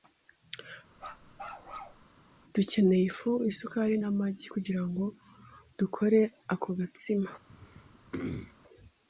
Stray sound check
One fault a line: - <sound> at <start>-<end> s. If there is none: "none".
- bark at 1.0-2.0 s
- throat clearing at 7.5-8.5 s